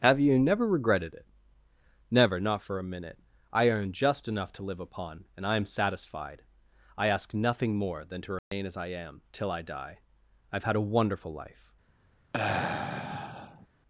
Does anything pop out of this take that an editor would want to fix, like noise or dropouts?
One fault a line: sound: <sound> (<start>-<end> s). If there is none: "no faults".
sound: dropout (8.4-8.5 s)
sound: sigh (12.3-13.7 s)